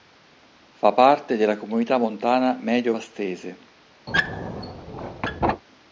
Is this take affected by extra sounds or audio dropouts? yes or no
yes